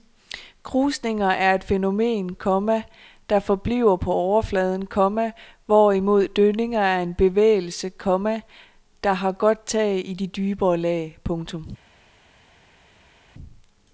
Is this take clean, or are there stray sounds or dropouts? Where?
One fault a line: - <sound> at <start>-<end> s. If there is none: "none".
none